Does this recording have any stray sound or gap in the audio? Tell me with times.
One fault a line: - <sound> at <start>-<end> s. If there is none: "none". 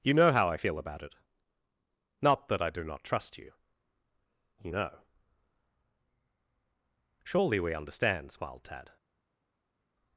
none